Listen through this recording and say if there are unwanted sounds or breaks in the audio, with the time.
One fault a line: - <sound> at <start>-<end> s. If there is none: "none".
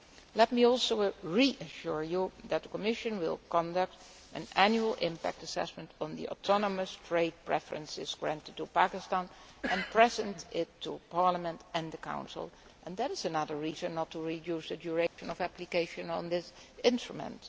- dropout at 15.1-15.2 s